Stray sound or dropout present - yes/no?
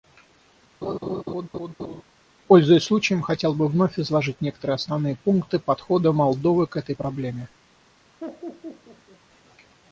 yes